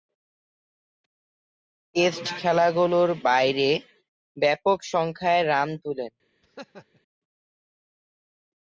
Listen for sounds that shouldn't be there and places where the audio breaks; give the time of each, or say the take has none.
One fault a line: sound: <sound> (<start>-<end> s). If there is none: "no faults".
sound: laugh (6.4-7.0 s)